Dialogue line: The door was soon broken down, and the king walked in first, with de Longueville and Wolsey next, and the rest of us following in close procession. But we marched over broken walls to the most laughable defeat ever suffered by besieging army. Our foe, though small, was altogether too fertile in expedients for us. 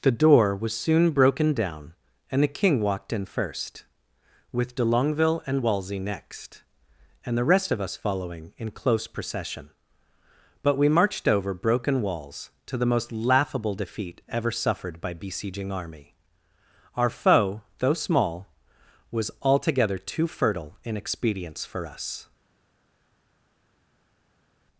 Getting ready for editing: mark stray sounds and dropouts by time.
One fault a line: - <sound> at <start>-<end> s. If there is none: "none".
none